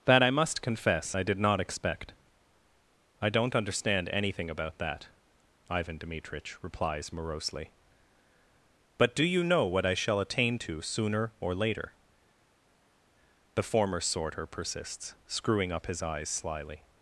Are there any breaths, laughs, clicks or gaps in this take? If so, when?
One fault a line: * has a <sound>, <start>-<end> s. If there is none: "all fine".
all fine